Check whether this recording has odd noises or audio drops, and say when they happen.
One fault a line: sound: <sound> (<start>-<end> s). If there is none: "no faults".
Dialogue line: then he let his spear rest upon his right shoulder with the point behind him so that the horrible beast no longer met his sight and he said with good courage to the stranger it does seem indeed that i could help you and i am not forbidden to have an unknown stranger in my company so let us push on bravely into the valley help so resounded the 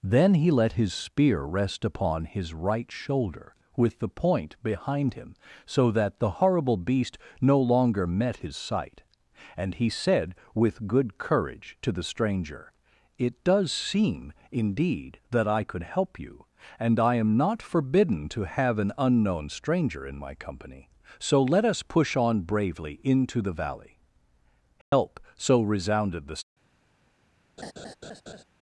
sound: dropout (24.8-24.9 s)
sound: laugh (27.6-28.4 s)